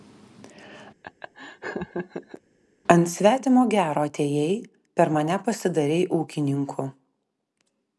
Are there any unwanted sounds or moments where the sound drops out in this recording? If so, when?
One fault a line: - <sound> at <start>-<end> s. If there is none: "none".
- laugh at 1.0-2.4 s